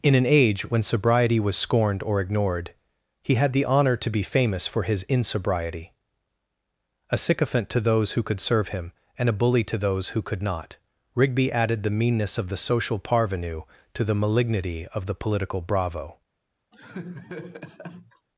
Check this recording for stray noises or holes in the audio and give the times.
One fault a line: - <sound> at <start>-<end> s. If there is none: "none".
- laugh at 16.7-18.3 s